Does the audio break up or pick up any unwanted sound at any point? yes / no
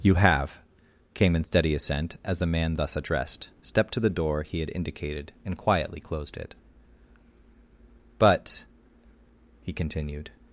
no